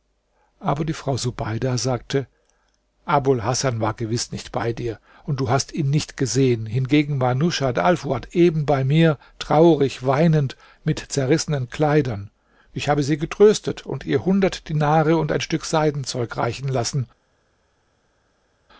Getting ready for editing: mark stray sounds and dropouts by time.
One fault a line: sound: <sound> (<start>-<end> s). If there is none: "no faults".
no faults